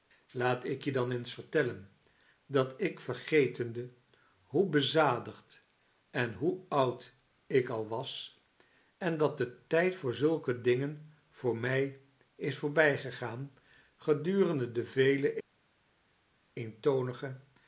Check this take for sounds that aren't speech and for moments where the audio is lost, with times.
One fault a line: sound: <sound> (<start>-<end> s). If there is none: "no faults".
no faults